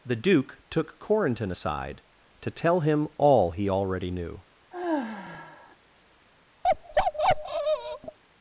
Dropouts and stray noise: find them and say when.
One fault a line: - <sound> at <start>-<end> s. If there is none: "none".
- sigh at 4.7-5.8 s
- bark at 6.6-8.2 s